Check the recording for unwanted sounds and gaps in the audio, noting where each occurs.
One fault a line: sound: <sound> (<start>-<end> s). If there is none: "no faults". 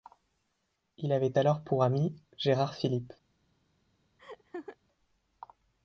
sound: laugh (4.2-4.8 s)